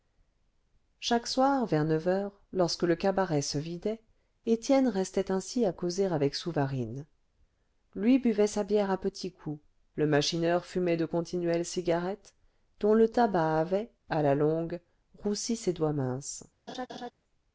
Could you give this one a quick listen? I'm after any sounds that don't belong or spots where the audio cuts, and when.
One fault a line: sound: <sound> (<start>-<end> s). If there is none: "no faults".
sound: laugh (16.7-17.1 s)